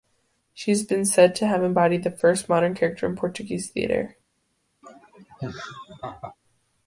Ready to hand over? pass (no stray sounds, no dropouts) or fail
fail